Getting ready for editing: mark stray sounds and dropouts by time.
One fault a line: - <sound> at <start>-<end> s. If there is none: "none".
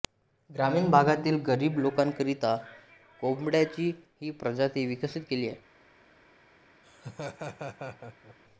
- laugh at 6.8-8.4 s